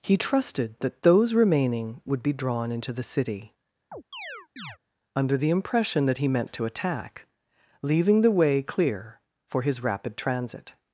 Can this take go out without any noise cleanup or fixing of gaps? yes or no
no